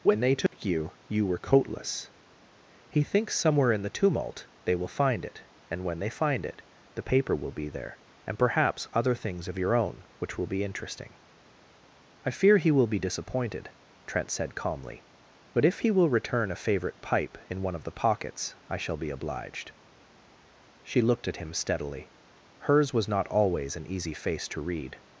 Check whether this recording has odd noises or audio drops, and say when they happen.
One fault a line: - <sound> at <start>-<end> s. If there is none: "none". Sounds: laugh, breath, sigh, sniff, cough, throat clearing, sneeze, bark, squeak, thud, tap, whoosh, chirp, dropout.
- dropout at 0.5-0.5 s